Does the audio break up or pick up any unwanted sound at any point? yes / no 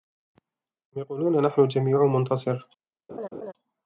yes